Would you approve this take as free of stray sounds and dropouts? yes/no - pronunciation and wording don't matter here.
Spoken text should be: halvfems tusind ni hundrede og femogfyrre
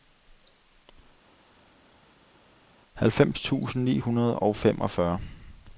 yes